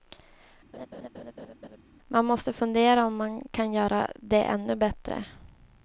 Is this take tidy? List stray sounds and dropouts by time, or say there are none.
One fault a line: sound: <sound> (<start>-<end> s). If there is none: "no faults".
sound: laugh (0.7-1.8 s)